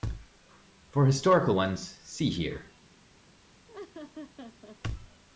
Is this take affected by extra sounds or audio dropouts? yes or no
yes